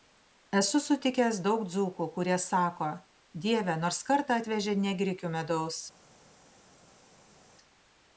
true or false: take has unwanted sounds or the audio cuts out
false